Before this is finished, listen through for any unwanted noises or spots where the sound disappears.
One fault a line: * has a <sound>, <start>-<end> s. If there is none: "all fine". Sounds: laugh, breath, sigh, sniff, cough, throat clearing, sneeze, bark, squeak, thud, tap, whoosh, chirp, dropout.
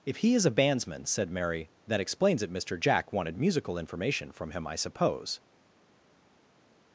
all fine